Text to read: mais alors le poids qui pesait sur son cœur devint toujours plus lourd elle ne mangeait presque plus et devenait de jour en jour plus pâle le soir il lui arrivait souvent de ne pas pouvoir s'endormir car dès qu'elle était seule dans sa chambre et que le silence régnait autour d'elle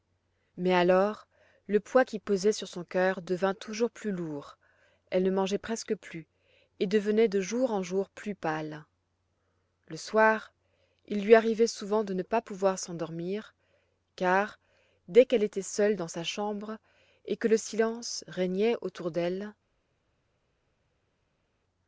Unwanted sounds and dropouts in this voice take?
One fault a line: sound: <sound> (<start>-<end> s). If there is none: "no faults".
no faults